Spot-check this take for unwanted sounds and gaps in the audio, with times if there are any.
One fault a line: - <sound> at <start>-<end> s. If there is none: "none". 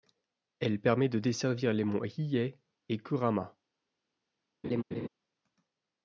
- laugh at 4.6-5.1 s